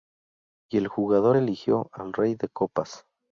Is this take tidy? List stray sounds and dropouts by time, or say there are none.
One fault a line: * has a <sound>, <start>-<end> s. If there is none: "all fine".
all fine